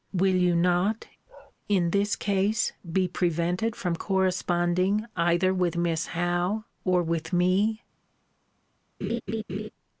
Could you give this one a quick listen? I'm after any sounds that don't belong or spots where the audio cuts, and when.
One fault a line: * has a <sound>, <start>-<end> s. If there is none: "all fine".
* has a bark, 1.3-1.5 s
* has a laugh, 9.0-9.7 s